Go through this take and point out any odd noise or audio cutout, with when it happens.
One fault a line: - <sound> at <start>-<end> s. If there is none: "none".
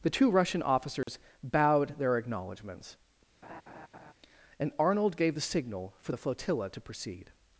- dropout at 1.0-1.1 s
- laugh at 3.4-4.1 s